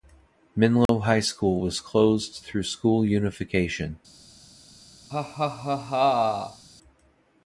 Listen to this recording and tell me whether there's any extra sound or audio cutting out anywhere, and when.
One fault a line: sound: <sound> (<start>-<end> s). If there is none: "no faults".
sound: dropout (0.9-0.9 s)
sound: laugh (5.1-6.6 s)